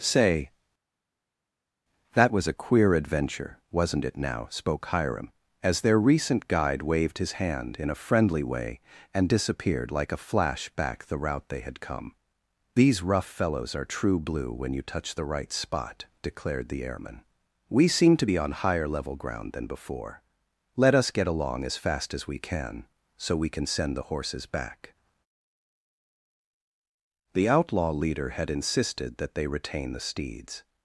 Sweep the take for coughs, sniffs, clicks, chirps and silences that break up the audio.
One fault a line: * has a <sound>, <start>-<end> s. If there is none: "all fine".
all fine